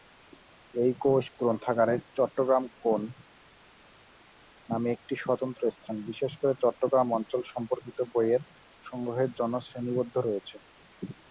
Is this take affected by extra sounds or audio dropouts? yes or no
no